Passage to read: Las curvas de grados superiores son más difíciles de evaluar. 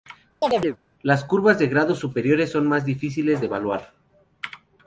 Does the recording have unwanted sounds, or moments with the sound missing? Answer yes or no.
yes